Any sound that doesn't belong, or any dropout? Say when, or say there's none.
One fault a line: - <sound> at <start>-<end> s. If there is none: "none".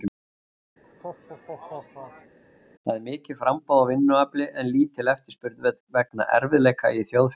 - laugh at 0.8-2.4 s